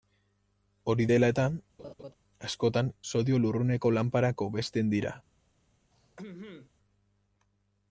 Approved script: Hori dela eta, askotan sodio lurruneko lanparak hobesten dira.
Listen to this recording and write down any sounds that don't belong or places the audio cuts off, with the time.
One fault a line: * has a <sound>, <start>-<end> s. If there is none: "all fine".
* has a laugh, 1.8-2.1 s
* has a throat clearing, 5.9-6.7 s